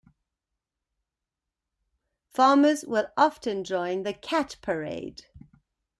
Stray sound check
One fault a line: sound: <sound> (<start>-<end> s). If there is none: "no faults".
no faults